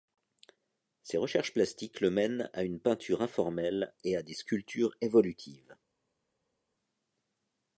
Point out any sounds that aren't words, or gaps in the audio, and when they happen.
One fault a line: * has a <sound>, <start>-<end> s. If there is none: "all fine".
all fine